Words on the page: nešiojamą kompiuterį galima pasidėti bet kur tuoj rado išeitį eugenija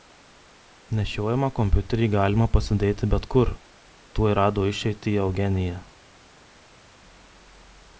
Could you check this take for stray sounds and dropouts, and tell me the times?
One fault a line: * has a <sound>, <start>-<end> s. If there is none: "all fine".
all fine